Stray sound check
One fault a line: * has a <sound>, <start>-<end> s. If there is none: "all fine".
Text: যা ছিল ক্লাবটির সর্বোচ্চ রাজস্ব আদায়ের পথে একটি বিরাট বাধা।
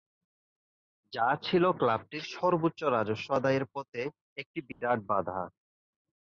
* has a dropout, 4.7-4.8 s